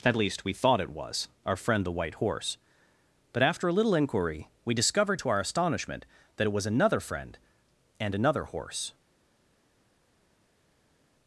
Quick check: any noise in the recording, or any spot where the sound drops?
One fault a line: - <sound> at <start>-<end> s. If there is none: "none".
none